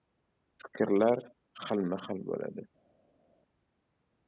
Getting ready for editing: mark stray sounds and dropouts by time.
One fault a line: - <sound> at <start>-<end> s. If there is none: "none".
none